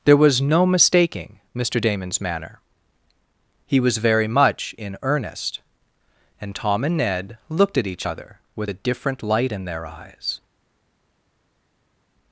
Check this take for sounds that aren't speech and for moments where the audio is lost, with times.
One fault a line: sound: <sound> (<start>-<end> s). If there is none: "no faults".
no faults